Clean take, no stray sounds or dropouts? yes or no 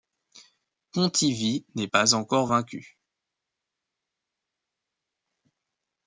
yes